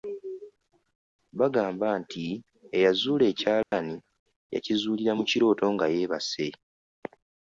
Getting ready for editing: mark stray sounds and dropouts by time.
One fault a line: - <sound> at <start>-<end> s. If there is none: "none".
- dropout at 3.6-3.7 s